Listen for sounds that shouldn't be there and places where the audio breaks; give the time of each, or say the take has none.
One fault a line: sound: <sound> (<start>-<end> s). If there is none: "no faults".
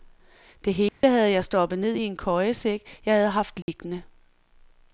sound: dropout (0.9-1.0 s)
sound: dropout (3.6-3.7 s)